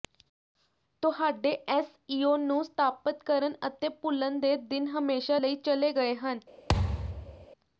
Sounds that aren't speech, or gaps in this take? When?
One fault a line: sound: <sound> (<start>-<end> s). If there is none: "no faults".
sound: thud (6.7-7.5 s)